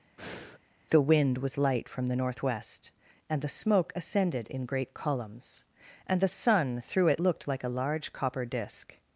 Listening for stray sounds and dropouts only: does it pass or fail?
fail